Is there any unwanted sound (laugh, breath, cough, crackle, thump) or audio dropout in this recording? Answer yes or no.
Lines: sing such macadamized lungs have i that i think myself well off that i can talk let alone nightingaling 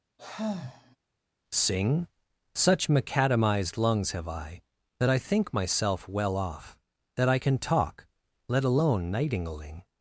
yes